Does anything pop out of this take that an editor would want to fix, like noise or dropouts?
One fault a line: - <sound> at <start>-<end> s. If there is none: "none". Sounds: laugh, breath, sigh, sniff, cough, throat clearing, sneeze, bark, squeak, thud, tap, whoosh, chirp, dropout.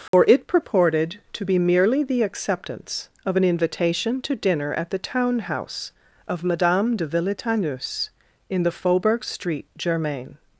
- dropout at 0.1-0.1 s